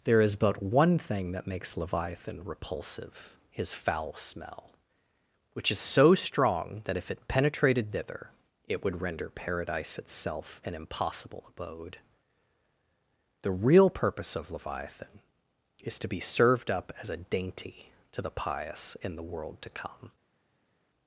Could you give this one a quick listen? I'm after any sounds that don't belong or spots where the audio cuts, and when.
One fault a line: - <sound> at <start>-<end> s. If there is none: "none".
none